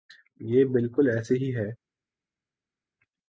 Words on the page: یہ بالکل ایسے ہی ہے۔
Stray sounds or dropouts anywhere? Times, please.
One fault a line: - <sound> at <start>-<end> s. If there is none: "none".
none